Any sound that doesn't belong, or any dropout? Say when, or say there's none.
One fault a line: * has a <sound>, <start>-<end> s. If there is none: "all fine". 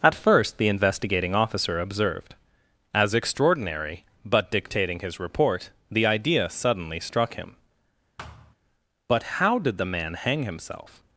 * has a thud, 8.2-8.6 s